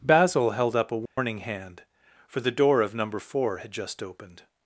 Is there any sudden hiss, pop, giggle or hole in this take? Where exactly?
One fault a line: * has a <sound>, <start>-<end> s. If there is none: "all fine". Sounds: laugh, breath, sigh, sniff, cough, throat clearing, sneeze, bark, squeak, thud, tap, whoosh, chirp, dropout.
* has a dropout, 1.1-1.2 s